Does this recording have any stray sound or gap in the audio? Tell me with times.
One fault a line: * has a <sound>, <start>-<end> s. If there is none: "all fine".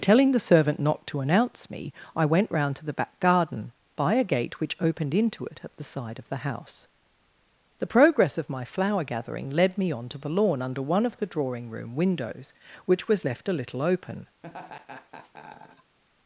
* has a laugh, 14.4-16.0 s